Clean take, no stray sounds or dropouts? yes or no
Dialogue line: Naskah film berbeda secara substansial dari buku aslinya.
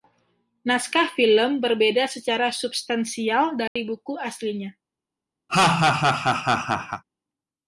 no